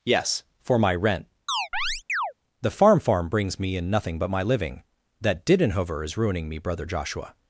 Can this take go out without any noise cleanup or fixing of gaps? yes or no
no